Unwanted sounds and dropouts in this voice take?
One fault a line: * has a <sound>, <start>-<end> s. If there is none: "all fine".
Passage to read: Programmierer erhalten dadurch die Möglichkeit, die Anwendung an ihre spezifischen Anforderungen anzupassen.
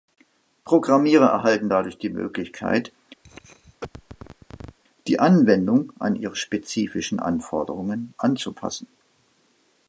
* has a cough, 3.2-4.8 s